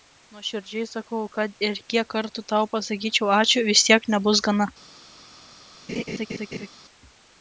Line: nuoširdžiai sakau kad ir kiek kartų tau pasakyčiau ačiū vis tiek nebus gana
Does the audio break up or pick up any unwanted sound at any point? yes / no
yes